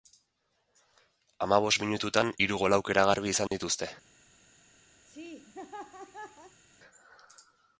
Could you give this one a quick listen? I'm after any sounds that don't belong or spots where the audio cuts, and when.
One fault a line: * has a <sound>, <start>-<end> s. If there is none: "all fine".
* has a dropout, 3.5-3.5 s
* has a laugh, 5.1-6.6 s